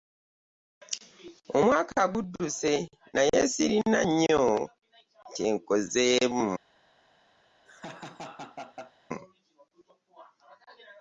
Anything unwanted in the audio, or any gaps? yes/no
yes